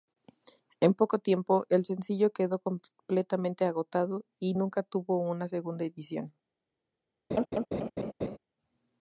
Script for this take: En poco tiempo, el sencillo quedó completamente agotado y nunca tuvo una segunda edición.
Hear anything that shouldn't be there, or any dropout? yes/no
yes